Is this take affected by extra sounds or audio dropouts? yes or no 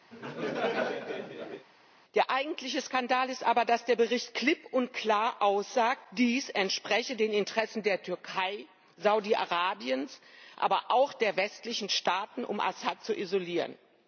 yes